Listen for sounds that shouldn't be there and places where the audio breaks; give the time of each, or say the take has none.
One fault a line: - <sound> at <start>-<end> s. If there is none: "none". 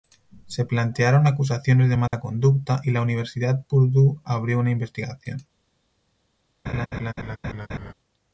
- dropout at 2.1-2.1 s
- laugh at 6.7-7.9 s